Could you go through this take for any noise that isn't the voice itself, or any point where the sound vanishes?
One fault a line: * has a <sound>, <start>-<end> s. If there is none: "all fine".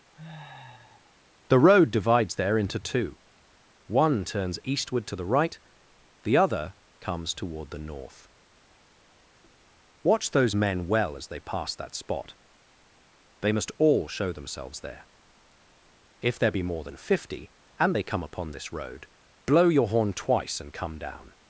* has a sniff, 0.1-1.1 s